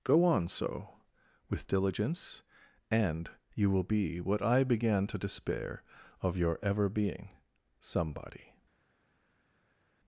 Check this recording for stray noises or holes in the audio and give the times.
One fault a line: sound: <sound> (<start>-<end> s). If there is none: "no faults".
no faults